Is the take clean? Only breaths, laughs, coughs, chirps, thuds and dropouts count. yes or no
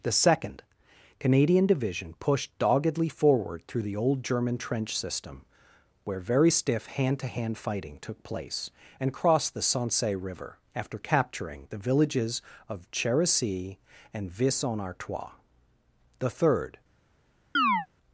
no